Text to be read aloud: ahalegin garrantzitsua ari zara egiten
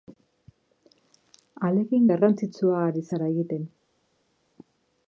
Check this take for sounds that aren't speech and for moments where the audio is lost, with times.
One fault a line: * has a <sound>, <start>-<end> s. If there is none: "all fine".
all fine